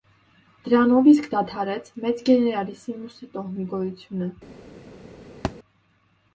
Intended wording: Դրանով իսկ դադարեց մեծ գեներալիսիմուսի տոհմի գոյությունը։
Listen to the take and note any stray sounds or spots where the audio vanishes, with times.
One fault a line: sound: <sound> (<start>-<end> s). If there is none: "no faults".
sound: thud (5.4-5.6 s)